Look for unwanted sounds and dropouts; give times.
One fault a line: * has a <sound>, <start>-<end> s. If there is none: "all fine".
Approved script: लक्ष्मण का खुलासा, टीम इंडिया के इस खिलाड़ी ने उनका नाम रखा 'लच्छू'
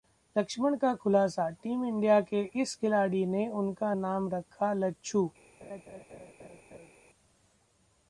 * has a laugh, 5.6-6.9 s